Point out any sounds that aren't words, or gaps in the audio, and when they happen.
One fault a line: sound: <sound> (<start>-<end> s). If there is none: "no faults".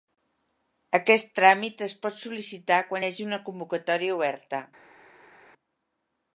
no faults